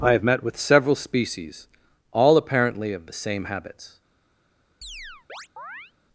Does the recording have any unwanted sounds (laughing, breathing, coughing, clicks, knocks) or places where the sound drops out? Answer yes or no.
yes